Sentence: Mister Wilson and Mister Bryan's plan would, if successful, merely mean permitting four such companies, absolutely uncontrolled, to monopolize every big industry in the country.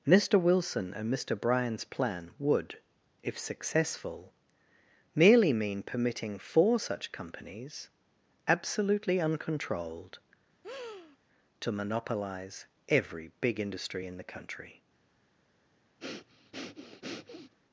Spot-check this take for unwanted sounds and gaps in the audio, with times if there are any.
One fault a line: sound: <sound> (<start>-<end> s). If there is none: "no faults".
sound: breath (10.6-11.2 s)
sound: breath (16.0-17.5 s)